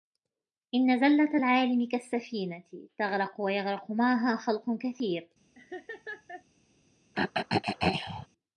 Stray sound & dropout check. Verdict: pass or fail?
fail